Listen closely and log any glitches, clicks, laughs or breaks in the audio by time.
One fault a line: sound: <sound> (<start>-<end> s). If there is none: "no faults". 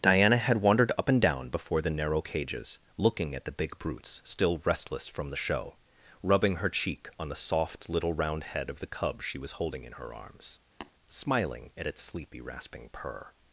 sound: tap (10.8-10.9 s)